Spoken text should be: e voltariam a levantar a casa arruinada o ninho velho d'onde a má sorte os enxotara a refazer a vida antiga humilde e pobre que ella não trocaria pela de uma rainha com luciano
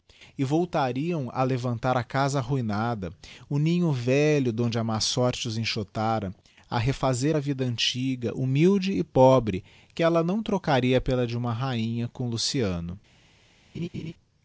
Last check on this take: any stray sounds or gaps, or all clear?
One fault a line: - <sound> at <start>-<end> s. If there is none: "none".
- laugh at 13.7-14.1 s